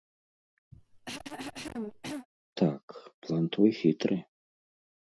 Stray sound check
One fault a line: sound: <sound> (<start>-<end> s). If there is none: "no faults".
sound: cough (0.7-2.3 s)